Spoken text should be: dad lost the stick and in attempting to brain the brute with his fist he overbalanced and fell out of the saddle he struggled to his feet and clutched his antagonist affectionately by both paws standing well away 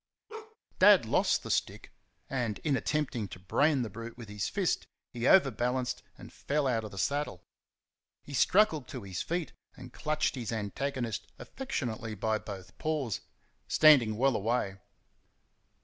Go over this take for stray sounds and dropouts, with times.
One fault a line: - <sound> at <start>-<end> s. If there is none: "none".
- bark at 0.3-0.6 s